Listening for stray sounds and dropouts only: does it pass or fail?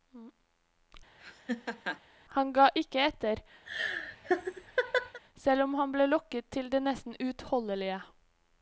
fail